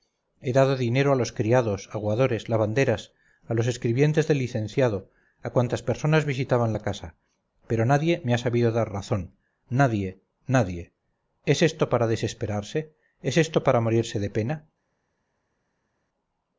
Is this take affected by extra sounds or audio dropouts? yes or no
no